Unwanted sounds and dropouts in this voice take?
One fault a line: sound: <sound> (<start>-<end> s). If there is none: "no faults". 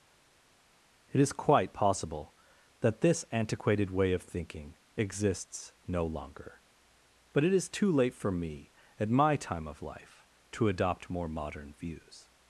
no faults